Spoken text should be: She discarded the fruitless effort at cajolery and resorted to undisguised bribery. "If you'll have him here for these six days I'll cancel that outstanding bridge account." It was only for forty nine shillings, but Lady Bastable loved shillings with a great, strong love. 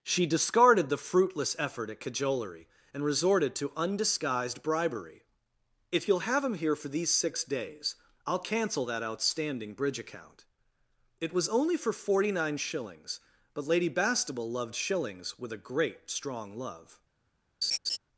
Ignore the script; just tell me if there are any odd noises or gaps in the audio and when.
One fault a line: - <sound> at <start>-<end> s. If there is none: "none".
- laugh at 17.6-18.0 s